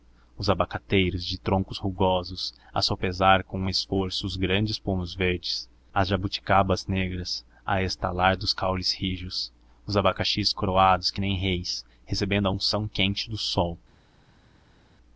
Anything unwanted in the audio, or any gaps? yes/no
no